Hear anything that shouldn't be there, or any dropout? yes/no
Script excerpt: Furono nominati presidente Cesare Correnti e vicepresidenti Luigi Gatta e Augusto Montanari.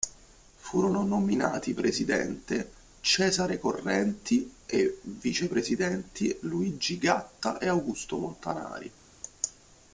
no